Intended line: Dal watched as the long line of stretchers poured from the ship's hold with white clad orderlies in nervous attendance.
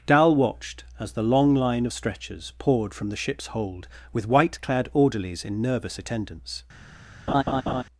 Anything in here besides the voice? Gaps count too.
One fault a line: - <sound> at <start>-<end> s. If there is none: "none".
- laugh at 7.3-7.8 s